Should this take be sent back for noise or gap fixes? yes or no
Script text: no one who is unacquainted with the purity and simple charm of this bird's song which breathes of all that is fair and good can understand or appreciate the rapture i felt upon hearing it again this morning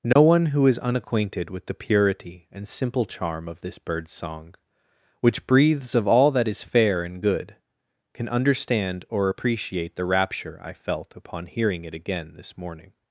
yes